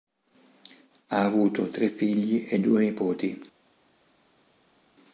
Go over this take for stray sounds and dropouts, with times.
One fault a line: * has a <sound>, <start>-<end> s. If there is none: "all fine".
all fine